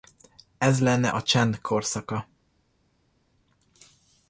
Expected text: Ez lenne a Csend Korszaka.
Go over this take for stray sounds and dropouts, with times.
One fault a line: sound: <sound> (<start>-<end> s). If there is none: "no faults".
no faults